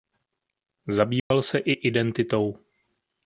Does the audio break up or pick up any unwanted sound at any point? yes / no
yes